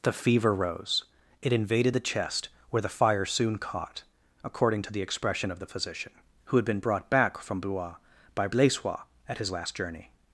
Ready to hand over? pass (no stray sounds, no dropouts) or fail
pass